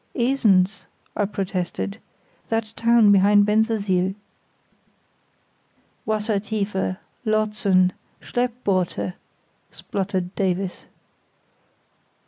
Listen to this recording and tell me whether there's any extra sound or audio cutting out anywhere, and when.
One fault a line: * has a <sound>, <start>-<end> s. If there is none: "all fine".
all fine